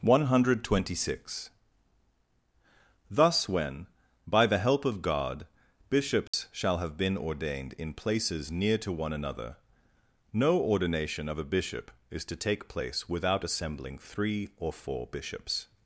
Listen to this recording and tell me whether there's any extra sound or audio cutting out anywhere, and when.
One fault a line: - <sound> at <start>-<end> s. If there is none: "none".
- dropout at 6.3-6.3 s